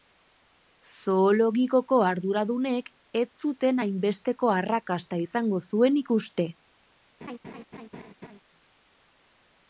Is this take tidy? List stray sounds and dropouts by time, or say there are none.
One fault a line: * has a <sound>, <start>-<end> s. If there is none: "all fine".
* has a laugh, 7.2-8.4 s